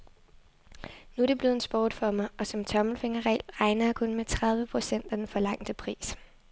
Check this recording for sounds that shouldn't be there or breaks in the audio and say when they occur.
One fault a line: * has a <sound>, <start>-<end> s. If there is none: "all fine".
all fine